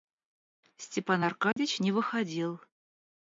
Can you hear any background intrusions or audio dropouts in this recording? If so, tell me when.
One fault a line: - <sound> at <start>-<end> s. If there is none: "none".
- dropout at 1.5-1.6 s